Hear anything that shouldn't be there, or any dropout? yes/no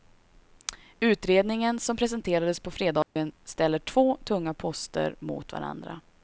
yes